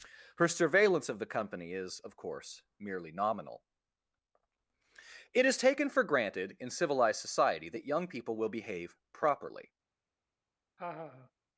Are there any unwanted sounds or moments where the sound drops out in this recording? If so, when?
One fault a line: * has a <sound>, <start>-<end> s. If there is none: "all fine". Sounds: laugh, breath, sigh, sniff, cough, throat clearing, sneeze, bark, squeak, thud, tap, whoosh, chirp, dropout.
* has a laugh, 10.8-11.3 s